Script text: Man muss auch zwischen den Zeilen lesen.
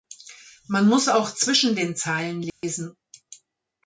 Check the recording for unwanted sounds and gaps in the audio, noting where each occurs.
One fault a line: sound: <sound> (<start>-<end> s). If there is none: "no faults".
sound: dropout (2.5-2.6 s)